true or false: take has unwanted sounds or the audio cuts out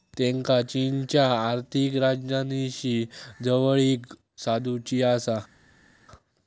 false